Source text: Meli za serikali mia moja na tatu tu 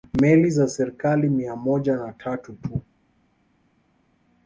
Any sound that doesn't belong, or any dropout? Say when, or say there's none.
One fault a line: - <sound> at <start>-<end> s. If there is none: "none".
none